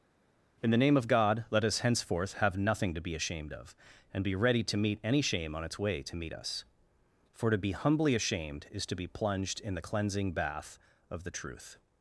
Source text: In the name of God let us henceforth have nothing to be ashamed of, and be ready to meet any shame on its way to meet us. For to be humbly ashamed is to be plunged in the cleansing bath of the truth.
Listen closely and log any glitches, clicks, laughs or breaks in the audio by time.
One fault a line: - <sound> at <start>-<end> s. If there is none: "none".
none